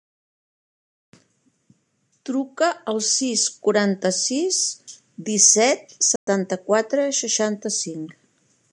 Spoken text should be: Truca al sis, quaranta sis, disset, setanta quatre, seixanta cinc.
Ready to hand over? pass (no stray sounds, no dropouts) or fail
fail